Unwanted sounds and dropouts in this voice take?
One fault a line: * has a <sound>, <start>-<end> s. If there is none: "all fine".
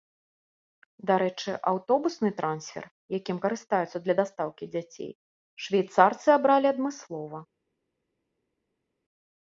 all fine